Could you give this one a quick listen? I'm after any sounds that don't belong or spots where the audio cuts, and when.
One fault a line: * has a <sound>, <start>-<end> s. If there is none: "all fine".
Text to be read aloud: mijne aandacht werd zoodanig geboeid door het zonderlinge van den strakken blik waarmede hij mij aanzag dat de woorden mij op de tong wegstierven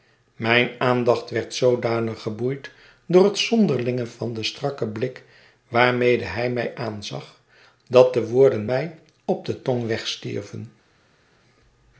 all fine